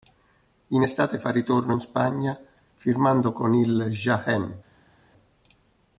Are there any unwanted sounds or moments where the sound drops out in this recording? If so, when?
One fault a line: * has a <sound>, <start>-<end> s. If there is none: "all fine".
all fine